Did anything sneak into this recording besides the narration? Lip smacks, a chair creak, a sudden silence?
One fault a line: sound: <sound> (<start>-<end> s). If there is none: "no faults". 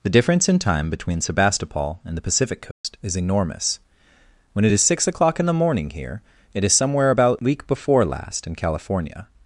sound: dropout (2.7-2.8 s)